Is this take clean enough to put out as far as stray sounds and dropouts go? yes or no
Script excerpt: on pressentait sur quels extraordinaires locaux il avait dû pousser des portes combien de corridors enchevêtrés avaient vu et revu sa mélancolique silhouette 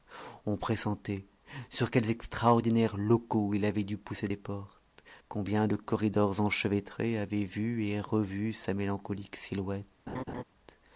no